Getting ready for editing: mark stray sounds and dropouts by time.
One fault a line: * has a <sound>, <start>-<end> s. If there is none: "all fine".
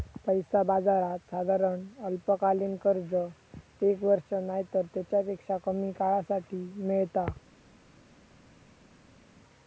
all fine